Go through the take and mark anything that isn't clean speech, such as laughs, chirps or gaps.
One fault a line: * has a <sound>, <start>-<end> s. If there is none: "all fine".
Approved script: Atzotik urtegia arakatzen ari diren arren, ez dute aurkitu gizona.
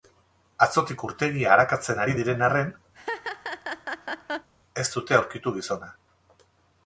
* has a laugh, 2.9-4.5 s